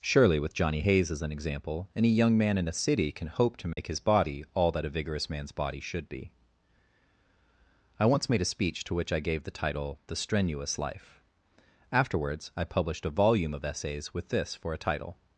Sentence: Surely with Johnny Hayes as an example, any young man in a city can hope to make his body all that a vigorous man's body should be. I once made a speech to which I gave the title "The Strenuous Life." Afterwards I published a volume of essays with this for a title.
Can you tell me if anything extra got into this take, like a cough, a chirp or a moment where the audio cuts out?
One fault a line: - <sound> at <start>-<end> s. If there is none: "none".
- dropout at 3.7-3.8 s